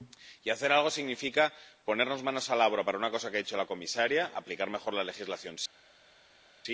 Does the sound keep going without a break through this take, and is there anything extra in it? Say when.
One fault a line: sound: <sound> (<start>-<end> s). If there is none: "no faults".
no faults